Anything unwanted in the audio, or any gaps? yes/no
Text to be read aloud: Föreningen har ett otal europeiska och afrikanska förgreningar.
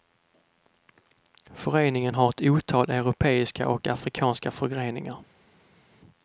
no